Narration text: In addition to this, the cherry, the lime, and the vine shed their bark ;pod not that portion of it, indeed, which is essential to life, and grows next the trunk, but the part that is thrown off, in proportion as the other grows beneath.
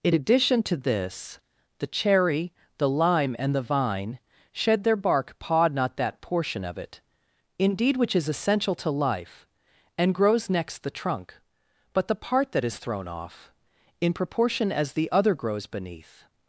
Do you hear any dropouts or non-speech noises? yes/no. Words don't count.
no